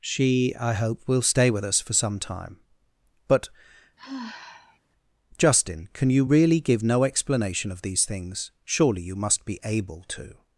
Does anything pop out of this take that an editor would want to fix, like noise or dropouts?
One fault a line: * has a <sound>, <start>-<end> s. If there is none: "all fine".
* has a sigh, 4.0-4.8 s